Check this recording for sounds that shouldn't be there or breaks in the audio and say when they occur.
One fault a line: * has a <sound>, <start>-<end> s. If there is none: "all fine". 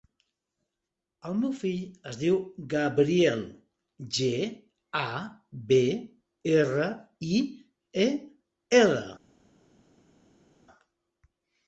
all fine